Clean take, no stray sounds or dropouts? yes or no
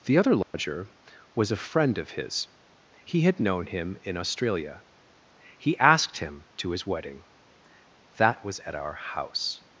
no